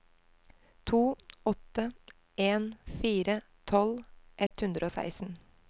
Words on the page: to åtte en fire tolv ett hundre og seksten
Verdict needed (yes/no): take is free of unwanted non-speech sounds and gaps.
no